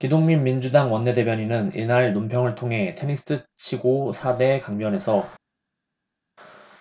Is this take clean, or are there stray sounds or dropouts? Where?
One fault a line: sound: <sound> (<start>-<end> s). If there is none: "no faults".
no faults